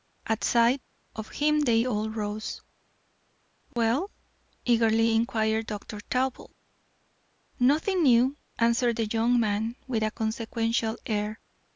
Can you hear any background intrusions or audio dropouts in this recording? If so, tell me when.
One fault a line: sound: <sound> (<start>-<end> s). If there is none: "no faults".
sound: dropout (3.7-3.8 s)